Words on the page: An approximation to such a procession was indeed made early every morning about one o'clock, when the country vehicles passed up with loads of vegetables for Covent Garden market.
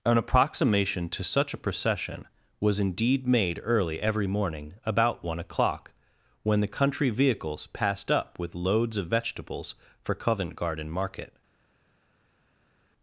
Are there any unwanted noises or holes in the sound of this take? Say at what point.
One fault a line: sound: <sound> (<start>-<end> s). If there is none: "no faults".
no faults